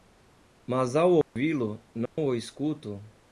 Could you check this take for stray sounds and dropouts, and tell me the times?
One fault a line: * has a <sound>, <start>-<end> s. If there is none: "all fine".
* has a dropout, 1.2-1.4 s
* has a dropout, 2.1-2.2 s